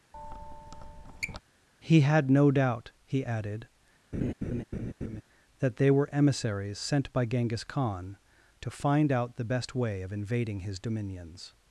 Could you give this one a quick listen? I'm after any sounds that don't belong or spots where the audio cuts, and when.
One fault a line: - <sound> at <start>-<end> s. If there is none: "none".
- squeak at 0.1-1.4 s
- laugh at 4.1-5.2 s